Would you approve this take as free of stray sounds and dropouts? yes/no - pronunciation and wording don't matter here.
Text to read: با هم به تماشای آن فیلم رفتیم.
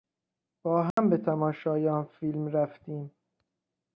no